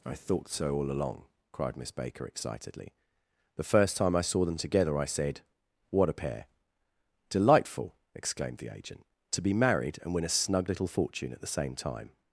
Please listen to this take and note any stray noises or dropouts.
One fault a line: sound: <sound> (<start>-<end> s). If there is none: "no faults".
no faults